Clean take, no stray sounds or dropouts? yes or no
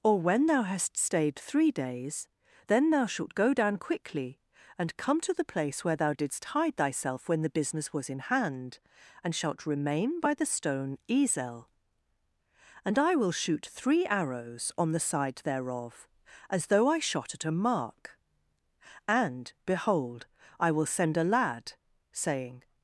yes